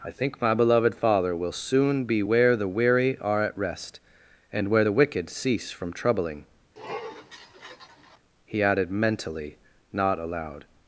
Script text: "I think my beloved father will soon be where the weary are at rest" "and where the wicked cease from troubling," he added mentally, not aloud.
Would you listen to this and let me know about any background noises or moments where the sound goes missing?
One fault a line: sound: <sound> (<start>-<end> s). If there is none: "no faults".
sound: sniff (6.8-8.2 s)